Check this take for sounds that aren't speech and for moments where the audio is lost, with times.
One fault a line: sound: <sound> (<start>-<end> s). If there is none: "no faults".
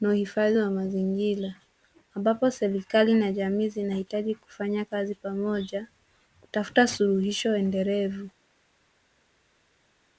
no faults